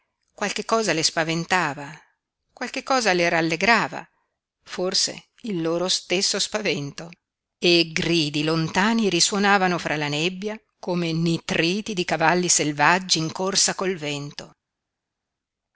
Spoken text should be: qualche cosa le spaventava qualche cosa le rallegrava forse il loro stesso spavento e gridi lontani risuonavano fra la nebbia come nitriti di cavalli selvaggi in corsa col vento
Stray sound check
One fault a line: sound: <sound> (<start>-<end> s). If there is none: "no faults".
no faults